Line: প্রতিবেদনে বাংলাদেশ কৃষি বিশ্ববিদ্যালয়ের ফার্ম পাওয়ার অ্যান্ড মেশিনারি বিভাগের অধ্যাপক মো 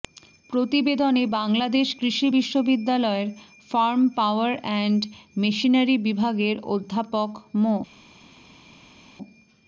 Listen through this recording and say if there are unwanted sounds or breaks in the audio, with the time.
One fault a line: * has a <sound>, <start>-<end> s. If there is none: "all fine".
all fine